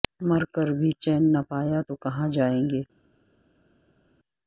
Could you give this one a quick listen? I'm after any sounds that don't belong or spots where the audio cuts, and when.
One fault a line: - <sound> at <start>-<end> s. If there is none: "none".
none